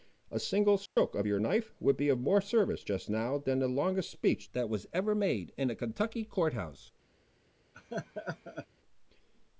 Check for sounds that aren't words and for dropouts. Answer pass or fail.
fail